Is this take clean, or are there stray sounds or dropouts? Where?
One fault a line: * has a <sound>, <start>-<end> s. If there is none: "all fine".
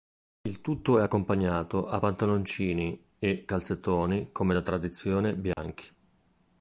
* has a dropout, 5.5-5.6 s